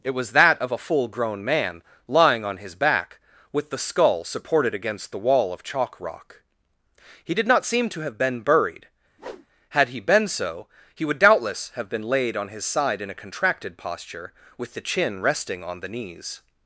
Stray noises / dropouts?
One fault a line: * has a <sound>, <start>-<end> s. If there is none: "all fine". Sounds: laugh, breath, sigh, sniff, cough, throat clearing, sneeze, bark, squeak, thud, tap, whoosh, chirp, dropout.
* has a whoosh, 9.2-9.5 s